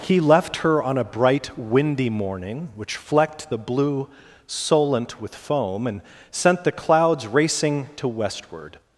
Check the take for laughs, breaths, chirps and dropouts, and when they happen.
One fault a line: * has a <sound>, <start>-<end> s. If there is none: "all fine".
all fine